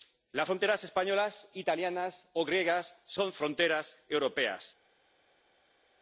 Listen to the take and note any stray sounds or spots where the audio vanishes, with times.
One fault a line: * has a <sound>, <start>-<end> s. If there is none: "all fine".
all fine